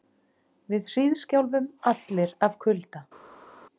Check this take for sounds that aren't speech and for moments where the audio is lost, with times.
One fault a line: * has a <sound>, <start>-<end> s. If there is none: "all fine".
all fine